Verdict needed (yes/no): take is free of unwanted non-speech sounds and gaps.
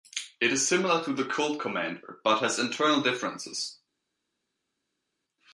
yes